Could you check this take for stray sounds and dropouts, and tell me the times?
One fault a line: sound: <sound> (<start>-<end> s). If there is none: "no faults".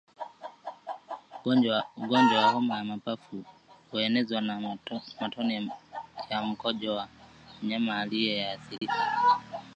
sound: dropout (8.8-8.8 s)